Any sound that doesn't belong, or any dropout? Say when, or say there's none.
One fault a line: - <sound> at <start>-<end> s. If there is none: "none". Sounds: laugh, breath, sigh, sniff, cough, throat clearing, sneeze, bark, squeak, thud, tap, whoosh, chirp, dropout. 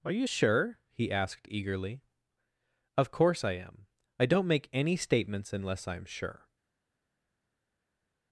none